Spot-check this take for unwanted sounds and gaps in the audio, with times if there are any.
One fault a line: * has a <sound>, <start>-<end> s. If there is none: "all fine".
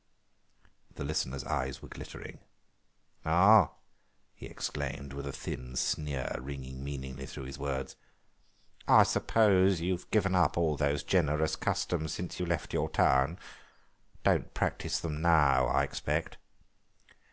all fine